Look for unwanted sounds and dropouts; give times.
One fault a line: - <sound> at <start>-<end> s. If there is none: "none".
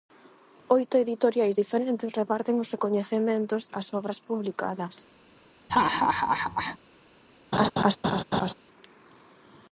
- laugh at 5.7-6.8 s
- laugh at 7.5-8.5 s